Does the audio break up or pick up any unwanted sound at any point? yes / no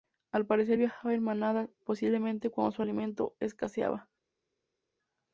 no